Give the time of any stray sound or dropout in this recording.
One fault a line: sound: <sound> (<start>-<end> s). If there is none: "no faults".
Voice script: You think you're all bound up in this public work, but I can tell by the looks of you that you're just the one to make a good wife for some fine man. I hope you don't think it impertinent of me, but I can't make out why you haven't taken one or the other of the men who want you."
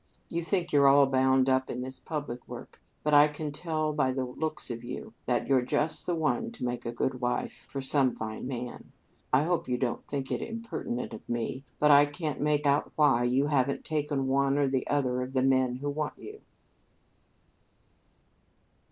no faults